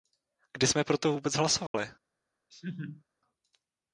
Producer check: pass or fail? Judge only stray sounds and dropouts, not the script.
fail